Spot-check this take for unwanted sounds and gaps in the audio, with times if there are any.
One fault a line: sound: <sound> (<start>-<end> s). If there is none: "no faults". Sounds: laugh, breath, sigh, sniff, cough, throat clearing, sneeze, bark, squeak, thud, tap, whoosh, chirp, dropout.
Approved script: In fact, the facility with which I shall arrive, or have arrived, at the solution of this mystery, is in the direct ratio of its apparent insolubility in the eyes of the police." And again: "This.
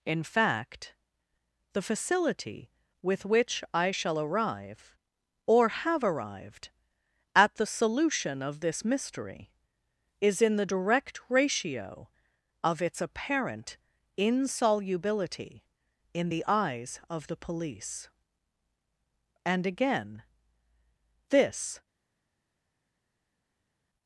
no faults